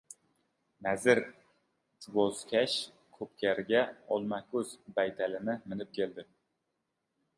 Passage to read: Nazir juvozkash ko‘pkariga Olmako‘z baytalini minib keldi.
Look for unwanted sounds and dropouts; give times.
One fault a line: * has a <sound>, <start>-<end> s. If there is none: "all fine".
all fine